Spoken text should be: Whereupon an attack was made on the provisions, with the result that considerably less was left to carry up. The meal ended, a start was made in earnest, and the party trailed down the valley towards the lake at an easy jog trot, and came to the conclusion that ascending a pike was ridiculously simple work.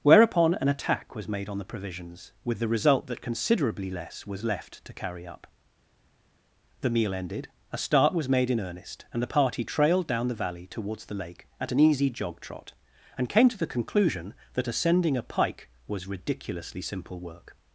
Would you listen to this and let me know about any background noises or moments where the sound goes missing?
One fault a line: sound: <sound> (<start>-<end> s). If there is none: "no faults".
no faults